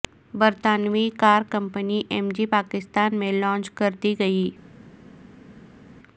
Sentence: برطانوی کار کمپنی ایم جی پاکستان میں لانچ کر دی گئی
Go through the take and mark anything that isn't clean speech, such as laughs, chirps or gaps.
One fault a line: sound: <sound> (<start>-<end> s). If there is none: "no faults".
no faults